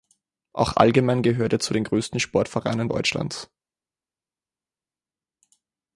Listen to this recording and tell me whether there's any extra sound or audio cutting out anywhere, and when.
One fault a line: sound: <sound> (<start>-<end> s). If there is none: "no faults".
no faults